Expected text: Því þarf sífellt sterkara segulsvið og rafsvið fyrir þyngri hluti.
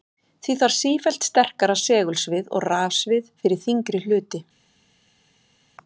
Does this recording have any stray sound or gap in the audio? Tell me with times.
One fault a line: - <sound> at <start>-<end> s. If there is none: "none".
none